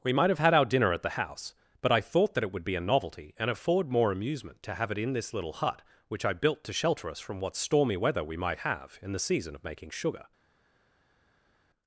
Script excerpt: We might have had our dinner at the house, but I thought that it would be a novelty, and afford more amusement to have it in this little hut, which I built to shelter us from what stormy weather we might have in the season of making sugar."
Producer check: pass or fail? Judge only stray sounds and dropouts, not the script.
pass